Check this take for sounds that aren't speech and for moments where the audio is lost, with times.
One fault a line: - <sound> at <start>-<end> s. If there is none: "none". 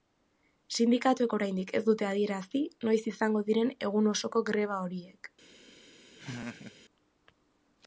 - laugh at 6.2-6.8 s